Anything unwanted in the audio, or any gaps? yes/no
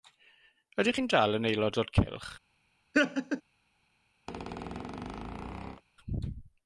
yes